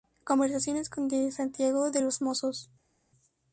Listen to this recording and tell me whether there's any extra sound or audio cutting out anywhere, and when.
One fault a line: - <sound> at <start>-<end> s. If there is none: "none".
none